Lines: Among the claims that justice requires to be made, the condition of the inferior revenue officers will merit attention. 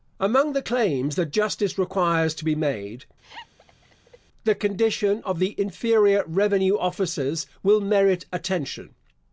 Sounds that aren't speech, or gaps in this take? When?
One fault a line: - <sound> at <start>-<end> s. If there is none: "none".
- laugh at 3.2-4.2 s